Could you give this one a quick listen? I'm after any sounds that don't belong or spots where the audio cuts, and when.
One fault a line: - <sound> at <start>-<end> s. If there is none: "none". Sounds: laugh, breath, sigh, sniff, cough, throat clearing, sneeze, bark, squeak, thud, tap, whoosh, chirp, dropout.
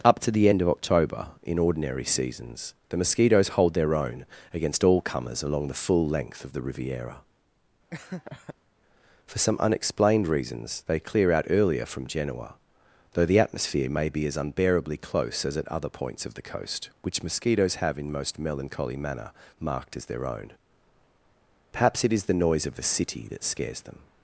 - laugh at 7.9-8.5 s